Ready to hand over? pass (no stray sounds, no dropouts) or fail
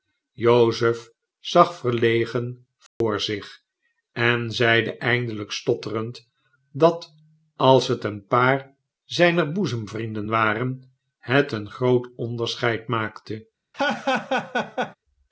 fail